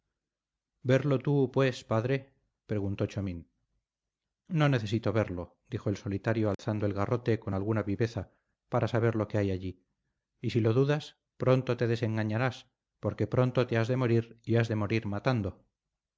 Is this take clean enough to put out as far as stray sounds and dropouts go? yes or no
no